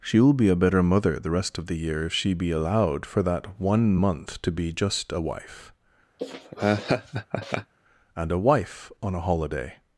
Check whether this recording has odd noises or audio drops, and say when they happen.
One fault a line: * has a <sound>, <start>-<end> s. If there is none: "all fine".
* has a laugh, 6.2-7.7 s